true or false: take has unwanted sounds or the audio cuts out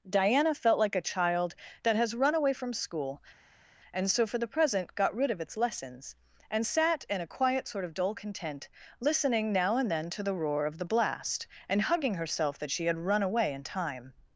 false